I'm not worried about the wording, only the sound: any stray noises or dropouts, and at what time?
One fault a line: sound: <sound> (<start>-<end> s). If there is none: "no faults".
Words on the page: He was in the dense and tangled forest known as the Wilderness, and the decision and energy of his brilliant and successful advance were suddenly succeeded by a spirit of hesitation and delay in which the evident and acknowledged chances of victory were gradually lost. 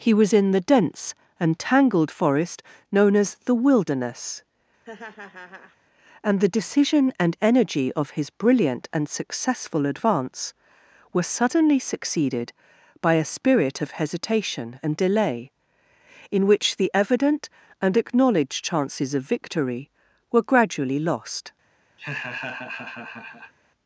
sound: laugh (4.8-5.8 s)
sound: laugh (22.0-23.5 s)